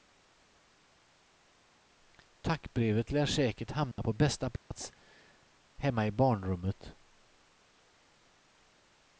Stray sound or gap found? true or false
true